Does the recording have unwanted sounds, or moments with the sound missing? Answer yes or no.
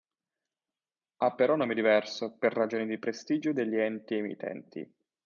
no